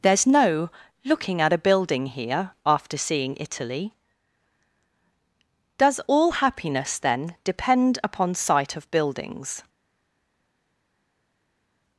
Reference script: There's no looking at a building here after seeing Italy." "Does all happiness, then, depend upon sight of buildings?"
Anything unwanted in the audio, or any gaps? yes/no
no